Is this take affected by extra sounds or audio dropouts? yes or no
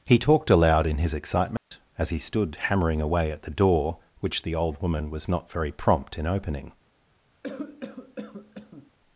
yes